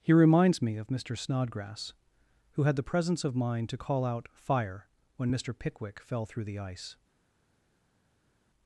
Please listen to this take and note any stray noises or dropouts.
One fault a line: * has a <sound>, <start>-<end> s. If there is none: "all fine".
all fine